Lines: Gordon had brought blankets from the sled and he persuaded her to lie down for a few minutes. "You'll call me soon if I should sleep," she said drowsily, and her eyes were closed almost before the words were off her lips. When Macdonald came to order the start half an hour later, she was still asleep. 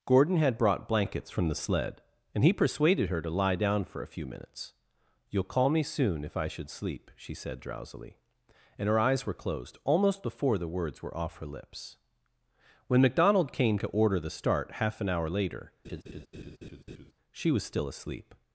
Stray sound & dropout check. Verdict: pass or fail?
fail